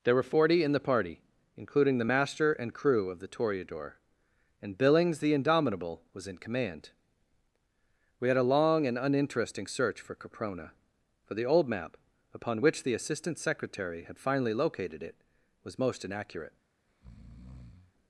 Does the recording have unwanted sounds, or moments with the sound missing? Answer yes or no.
yes